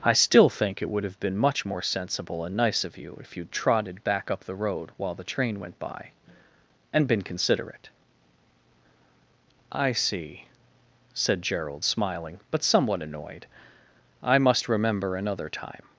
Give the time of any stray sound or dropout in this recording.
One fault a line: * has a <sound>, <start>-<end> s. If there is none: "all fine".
all fine